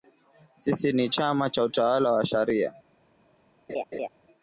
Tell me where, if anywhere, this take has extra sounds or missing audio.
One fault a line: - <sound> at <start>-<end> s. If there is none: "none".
- laugh at 3.7-4.1 s